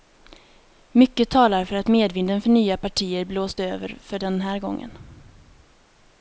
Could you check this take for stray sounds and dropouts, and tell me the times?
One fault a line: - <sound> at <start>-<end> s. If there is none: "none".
none